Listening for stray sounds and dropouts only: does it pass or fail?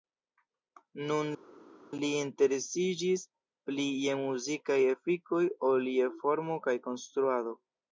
pass